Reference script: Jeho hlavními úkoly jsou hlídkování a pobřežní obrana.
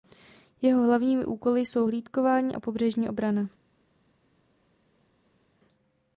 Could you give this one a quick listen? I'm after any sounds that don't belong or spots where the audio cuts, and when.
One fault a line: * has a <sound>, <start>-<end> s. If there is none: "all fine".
all fine